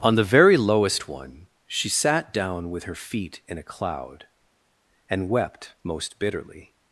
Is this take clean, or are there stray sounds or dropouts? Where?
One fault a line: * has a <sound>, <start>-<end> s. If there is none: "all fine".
all fine